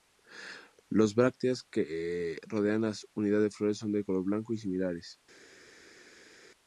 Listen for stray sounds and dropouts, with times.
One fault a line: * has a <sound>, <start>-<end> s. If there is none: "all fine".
all fine